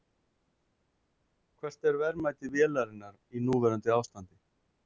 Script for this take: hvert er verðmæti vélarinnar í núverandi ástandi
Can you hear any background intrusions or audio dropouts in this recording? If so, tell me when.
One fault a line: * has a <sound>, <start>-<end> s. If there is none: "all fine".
all fine